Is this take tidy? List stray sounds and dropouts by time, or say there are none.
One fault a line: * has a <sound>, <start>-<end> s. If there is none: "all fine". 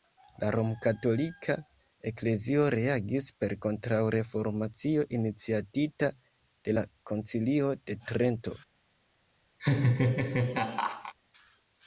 * has a laugh, 9.6-11.1 s